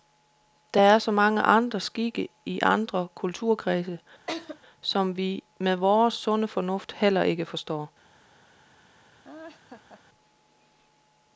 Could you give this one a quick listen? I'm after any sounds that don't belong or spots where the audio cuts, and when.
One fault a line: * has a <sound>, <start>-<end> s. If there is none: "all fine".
* has a laugh, 4.3-4.6 s
* has a laugh, 9.2-10.0 s